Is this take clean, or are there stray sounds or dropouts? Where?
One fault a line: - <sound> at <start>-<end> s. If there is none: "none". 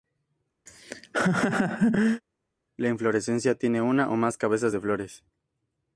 - laugh at 0.7-2.2 s